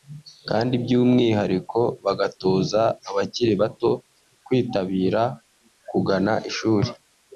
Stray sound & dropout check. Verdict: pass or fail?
pass